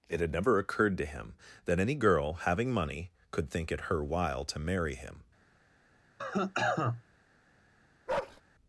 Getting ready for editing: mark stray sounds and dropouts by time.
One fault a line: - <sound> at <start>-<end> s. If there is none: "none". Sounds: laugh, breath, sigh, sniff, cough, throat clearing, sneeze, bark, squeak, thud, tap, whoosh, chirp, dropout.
- cough at 6.2-7.0 s
- bark at 8.1-8.4 s